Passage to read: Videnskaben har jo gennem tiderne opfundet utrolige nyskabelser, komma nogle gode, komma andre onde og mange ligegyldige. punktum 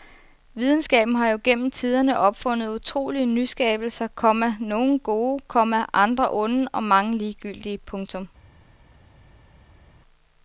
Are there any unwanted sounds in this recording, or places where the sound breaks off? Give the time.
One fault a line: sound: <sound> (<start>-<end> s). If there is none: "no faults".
no faults